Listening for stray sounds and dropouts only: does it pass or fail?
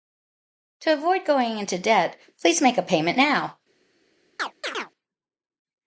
fail